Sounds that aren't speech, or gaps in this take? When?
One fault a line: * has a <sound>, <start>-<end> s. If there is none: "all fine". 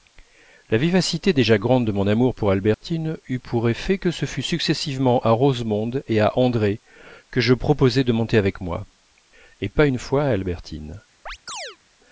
* has a dropout, 2.7-2.8 s
* has a chirp, 11.3-11.8 s